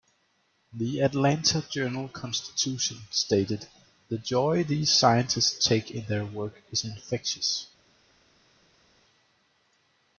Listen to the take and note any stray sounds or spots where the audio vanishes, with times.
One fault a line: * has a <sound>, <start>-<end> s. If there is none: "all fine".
all fine